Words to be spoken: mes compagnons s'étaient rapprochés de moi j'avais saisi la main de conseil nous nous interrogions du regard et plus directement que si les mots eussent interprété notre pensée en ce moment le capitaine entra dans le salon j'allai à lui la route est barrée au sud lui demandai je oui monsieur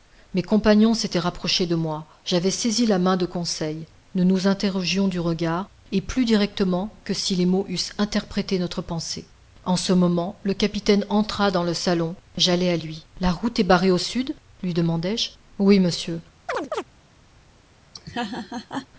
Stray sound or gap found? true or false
true